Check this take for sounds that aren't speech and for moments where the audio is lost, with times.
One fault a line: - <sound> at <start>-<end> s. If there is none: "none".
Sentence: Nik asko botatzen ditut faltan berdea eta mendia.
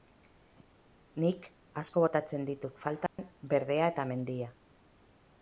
- dropout at 3.1-3.2 s